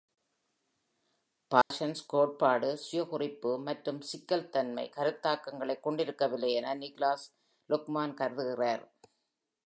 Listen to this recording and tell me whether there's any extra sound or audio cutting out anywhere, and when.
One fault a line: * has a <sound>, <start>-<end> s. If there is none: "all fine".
* has a dropout, 1.6-1.7 s